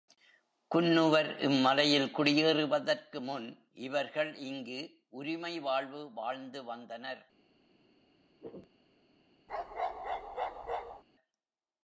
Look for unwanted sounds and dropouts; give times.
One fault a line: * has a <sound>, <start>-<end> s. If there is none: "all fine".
* has a throat clearing, 8.4-8.7 s
* has a bark, 9.5-11.0 s